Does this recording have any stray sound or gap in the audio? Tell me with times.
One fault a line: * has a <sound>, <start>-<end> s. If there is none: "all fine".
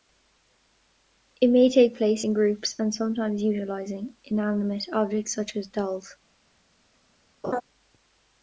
* has a laugh, 7.4-7.6 s